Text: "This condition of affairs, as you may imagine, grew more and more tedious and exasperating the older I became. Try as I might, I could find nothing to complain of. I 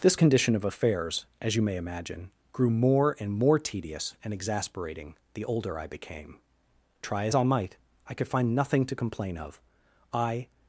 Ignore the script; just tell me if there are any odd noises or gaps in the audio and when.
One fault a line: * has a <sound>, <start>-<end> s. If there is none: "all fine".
all fine